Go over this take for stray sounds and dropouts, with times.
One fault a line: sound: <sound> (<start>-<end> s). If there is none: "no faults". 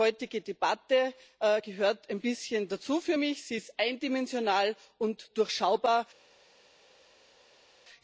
no faults